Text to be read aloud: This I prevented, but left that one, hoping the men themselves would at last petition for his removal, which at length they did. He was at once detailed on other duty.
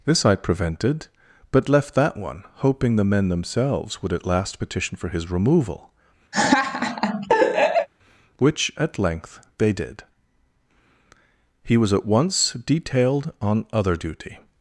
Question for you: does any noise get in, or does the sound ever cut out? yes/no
yes